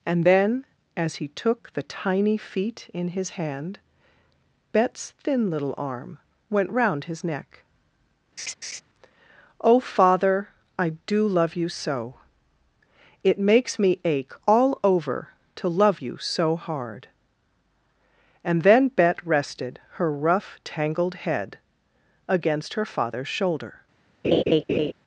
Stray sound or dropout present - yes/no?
yes